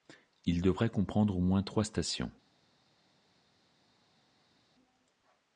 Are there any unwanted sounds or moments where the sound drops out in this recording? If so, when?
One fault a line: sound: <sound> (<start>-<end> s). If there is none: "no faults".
no faults